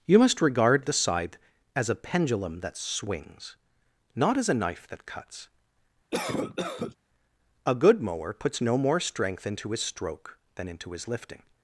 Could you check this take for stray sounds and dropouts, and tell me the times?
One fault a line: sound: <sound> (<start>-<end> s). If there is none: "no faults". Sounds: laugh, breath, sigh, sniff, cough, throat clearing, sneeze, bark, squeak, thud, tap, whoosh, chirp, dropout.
sound: cough (6.1-7.0 s)